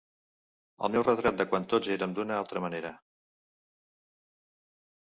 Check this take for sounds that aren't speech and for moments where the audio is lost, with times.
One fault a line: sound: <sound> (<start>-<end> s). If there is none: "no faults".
no faults